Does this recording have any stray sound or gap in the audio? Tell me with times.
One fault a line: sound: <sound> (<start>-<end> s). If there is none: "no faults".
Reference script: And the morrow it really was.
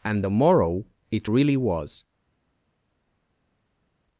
no faults